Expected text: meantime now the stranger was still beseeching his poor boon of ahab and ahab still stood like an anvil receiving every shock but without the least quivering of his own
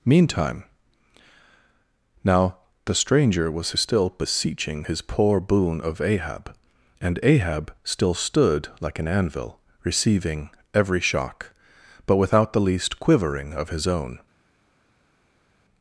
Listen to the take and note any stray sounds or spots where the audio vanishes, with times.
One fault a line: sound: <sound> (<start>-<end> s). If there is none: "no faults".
no faults